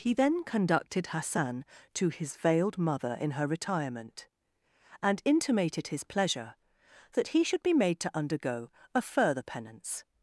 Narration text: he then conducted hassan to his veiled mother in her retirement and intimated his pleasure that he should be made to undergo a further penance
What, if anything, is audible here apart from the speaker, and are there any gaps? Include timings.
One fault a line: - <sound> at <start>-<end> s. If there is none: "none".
none